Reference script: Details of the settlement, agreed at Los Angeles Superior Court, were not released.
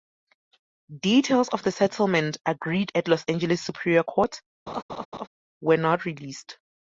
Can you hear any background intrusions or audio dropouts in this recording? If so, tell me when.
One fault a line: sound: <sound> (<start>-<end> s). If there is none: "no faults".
sound: laugh (4.7-5.3 s)